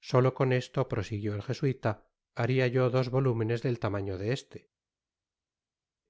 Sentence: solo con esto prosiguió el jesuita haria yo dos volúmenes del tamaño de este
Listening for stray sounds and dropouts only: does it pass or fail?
pass